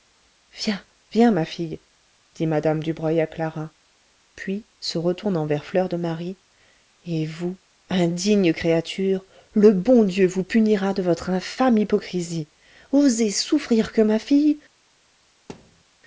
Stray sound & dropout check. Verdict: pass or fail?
fail